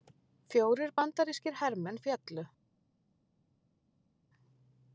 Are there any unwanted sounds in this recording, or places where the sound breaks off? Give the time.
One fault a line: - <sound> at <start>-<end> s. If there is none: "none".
none